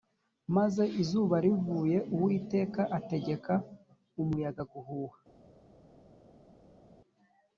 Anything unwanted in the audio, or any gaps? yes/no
no